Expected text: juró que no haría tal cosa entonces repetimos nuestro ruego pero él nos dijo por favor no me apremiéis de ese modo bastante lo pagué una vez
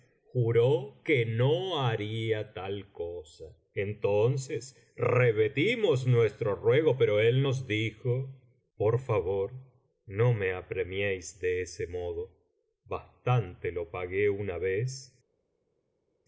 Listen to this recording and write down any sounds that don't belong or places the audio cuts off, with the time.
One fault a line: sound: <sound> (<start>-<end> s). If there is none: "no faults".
no faults